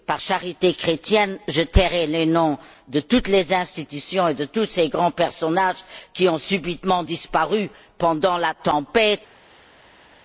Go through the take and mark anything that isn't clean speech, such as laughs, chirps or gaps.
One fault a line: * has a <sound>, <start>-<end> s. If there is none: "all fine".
all fine